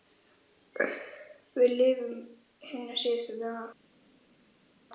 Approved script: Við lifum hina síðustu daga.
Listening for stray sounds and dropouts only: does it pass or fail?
pass